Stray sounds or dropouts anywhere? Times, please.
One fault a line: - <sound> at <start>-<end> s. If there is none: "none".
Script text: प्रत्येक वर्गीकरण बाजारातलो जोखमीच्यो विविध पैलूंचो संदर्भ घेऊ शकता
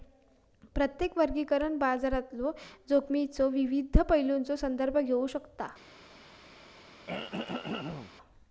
- throat clearing at 7.1-8.1 s